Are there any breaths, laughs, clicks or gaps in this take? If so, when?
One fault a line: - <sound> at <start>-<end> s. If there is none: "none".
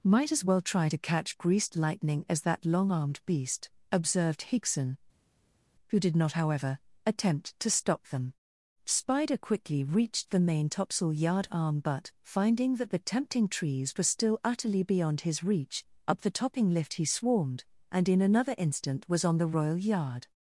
none